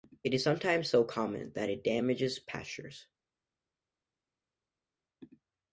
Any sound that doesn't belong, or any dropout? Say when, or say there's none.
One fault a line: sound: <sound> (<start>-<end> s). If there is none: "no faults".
no faults